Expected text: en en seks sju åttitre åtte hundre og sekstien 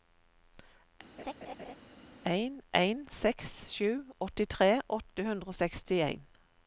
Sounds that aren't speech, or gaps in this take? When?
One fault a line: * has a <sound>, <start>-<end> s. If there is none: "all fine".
* has a laugh, 1.2-1.8 s